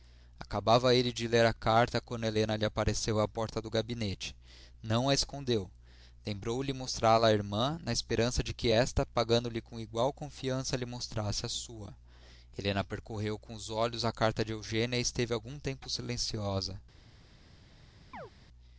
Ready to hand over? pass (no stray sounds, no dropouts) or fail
fail